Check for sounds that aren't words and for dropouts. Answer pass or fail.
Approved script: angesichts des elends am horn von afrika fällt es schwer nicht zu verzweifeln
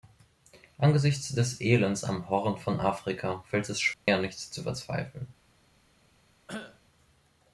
fail